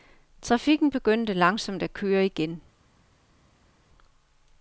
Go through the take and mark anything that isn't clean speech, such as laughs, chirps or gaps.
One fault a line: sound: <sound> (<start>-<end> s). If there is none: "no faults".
no faults